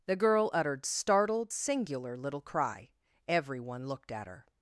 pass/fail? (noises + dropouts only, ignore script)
pass